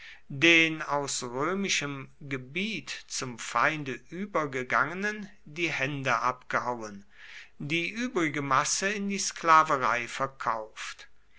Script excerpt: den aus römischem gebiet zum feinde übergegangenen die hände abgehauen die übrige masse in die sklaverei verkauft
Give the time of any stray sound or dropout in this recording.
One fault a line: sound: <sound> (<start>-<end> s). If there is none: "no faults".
no faults